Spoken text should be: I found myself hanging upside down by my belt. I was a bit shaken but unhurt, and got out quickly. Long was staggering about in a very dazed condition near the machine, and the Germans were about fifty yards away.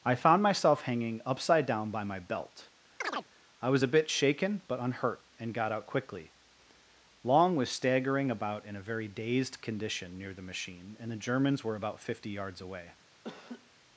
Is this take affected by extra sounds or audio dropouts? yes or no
yes